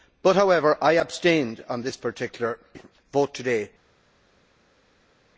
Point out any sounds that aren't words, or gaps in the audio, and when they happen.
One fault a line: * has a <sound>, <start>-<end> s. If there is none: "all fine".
all fine